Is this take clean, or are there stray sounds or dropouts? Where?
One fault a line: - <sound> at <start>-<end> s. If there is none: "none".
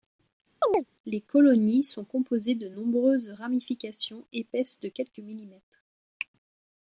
- chirp at 0.6-0.9 s